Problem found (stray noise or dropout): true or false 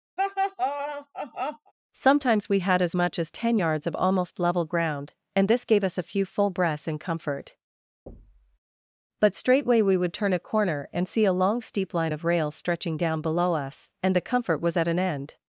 true